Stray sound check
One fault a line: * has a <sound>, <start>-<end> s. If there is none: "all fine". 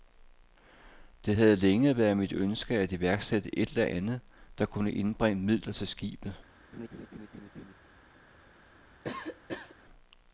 * has a laugh, 6.7-7.7 s
* has a cough, 9.0-9.8 s